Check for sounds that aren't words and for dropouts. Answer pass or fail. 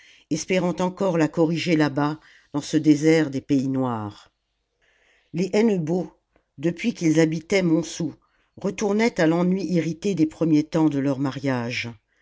pass